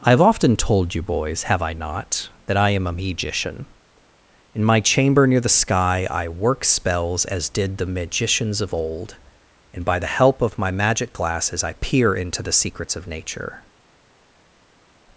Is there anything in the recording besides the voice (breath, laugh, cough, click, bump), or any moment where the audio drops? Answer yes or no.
no